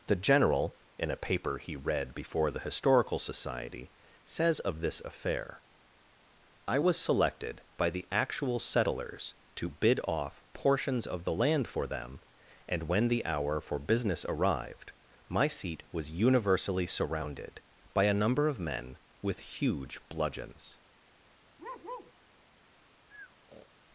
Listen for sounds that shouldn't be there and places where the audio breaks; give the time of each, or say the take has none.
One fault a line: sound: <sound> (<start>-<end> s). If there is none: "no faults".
sound: bark (21.6-22.1 s)
sound: breath (23.1-23.7 s)